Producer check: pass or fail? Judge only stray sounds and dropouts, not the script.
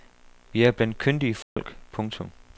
fail